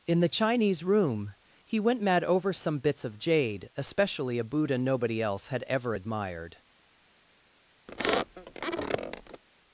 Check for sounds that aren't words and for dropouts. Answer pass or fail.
fail